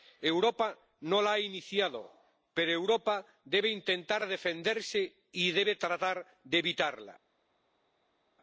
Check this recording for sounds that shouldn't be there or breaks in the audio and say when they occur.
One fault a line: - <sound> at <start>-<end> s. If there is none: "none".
none